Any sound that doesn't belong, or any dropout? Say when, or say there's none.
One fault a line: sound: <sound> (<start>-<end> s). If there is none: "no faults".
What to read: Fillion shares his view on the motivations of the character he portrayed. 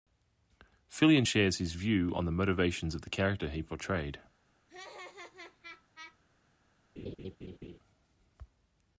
sound: laugh (4.7-6.2 s)
sound: laugh (7.0-7.8 s)